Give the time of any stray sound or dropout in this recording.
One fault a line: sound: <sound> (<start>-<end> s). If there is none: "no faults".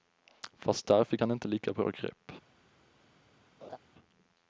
sound: laugh (3.6-3.8 s)